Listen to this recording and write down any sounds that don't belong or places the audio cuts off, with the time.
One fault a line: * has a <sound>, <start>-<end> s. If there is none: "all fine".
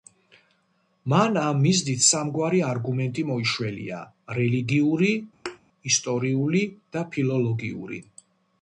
* has a thud, 5.5-5.6 s